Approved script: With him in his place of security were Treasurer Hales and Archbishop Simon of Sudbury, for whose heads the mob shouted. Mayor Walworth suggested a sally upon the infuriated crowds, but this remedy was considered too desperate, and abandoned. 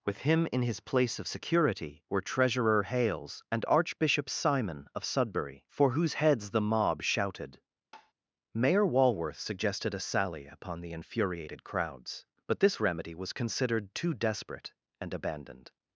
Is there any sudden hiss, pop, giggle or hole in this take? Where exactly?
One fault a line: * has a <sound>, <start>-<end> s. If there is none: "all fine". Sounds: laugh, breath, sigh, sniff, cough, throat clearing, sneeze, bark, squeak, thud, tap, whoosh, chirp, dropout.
* has a tap, 7.9-8.1 s